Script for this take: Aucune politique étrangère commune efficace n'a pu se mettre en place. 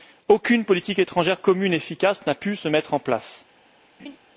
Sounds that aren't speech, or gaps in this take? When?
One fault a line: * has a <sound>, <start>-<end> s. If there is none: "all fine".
* has a laugh, 4.0-4.2 s